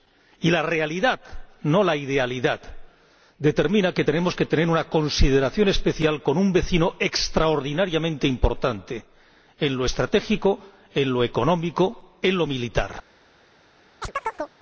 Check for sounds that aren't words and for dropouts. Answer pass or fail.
fail